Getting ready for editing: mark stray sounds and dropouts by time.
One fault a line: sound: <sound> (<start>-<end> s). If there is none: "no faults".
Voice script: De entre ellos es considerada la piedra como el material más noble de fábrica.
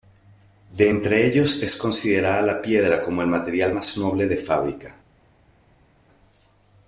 no faults